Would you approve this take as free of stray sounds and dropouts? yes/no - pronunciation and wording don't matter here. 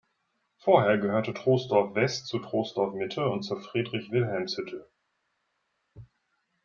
yes